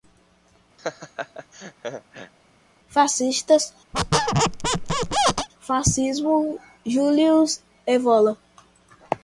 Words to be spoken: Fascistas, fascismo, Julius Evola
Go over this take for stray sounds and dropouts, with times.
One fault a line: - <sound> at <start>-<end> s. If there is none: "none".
- laugh at 0.8-2.3 s
- squeak at 3.9-5.5 s